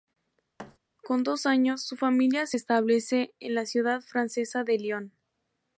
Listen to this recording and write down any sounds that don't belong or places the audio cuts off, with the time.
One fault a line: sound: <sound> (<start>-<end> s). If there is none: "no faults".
sound: thud (0.6-0.8 s)